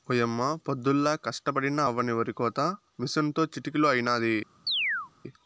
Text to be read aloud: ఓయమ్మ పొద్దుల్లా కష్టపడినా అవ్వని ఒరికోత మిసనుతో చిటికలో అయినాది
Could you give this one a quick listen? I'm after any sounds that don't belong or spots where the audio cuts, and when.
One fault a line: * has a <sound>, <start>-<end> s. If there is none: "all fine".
* has a chirp, 4.7-5.1 s